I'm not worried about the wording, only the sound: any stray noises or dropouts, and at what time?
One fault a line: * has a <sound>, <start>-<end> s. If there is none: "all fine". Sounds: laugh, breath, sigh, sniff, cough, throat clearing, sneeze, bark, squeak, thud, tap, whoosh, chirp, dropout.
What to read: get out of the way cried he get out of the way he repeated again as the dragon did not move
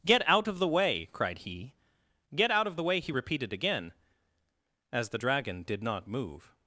all fine